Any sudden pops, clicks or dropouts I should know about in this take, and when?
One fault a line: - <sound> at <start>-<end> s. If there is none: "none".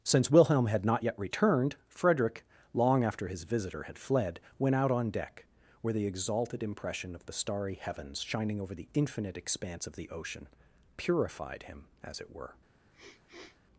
- sniff at 12.9-13.6 s